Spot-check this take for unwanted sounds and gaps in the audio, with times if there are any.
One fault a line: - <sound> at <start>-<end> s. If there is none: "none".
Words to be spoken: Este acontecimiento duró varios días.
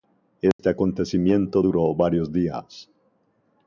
- dropout at 0.5-0.6 s